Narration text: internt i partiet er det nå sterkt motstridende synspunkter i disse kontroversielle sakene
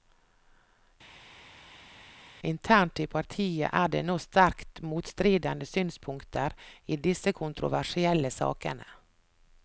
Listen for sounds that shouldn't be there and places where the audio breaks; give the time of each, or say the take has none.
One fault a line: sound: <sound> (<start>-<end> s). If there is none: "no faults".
no faults